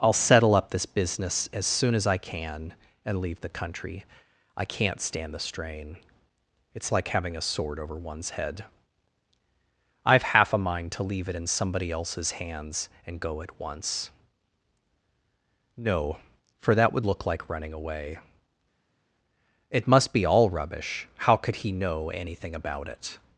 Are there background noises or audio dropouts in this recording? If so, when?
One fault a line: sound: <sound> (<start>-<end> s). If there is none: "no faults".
no faults